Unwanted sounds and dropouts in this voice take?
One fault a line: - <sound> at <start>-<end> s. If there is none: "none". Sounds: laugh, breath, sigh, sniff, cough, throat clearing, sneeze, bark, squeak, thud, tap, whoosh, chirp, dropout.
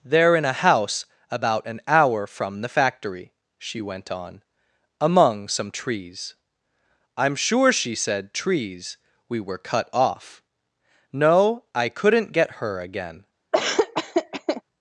- laugh at 13.5-14.6 s